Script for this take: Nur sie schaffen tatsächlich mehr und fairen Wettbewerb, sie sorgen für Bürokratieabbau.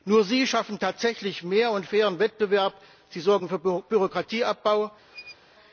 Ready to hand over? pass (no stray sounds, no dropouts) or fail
fail